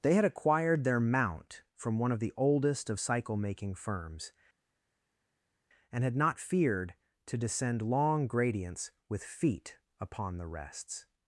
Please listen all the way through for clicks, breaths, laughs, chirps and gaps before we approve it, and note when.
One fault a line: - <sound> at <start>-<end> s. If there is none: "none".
none